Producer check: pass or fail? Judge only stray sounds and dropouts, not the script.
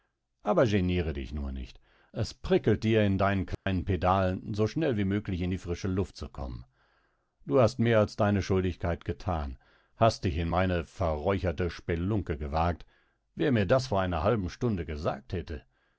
fail